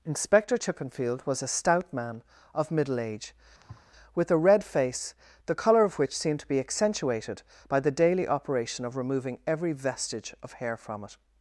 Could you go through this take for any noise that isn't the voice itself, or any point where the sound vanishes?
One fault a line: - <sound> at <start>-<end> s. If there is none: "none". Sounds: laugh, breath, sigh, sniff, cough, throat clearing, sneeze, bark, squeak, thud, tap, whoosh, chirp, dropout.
- thud at 3.6-3.9 s